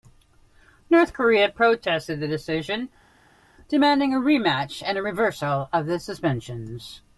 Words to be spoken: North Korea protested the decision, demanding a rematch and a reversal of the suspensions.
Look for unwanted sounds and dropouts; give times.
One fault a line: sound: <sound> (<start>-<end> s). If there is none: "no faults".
no faults